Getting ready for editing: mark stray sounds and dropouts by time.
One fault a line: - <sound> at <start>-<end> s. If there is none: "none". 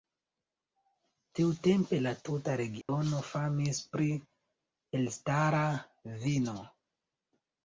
- dropout at 2.8-2.9 s